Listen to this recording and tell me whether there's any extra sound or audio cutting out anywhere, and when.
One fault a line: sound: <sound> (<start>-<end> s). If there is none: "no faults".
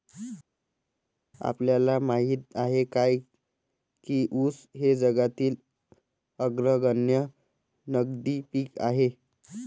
no faults